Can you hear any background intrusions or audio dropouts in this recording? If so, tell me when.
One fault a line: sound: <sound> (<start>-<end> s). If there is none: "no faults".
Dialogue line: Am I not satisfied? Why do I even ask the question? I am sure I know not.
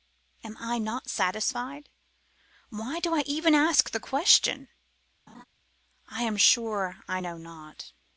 sound: laugh (5.3-5.4 s)